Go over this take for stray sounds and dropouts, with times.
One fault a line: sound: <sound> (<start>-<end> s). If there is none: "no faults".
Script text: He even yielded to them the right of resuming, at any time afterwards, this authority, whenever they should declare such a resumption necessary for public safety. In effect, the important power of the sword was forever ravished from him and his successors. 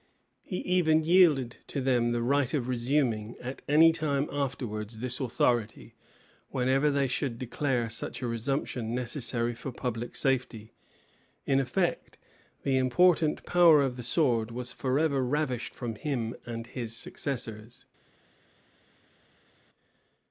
no faults